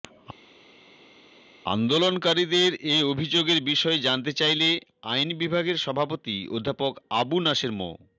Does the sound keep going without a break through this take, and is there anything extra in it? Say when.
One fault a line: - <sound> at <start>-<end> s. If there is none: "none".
none